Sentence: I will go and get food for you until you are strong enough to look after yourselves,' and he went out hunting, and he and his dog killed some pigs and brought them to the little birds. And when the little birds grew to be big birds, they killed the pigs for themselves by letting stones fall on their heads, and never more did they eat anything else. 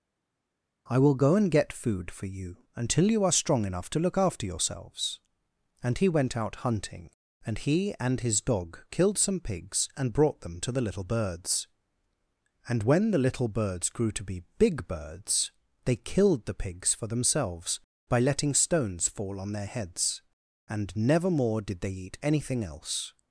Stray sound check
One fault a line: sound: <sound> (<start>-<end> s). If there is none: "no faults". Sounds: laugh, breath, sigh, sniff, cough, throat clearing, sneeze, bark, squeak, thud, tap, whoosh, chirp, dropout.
no faults